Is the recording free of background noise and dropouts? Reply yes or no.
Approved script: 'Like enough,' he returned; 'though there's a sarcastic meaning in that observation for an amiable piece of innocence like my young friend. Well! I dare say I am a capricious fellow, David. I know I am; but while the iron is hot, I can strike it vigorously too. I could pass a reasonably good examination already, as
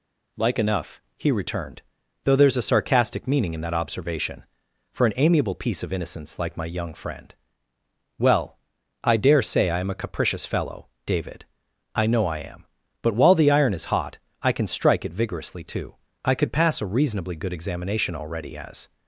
yes